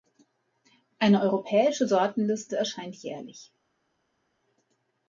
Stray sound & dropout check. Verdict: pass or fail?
pass